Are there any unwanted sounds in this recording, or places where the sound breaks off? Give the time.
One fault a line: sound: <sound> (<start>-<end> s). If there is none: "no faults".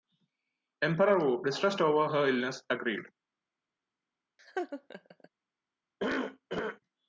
sound: laugh (4.4-5.3 s)
sound: cough (6.0-6.8 s)